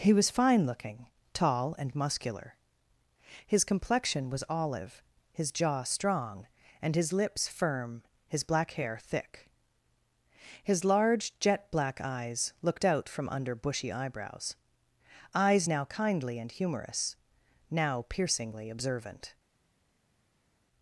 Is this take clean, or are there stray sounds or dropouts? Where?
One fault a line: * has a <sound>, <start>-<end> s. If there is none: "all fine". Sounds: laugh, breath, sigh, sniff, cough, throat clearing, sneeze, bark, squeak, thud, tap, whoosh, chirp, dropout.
all fine